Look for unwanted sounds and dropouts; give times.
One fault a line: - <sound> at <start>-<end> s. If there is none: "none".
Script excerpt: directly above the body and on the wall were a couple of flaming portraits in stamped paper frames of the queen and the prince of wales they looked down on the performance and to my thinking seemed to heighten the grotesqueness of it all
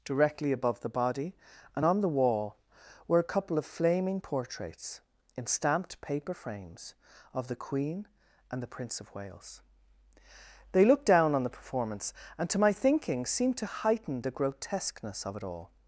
none